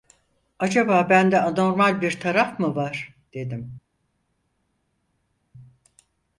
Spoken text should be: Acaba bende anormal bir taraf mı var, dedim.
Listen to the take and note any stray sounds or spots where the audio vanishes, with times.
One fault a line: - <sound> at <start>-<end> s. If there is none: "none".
none